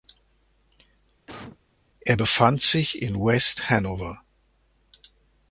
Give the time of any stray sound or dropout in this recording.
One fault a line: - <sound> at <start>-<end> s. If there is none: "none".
- cough at 1.3-1.6 s